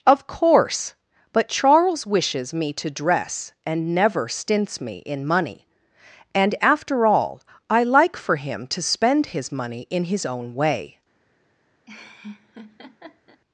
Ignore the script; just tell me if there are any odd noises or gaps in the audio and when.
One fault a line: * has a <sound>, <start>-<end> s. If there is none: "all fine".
* has a laugh, 11.9-13.4 s